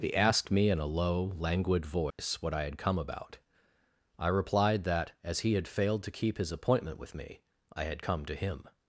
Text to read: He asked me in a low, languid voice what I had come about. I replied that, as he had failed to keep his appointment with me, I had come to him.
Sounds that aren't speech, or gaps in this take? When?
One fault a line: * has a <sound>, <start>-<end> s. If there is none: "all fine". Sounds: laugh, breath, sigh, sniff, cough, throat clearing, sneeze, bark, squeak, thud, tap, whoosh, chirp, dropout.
* has a dropout, 2.1-2.2 s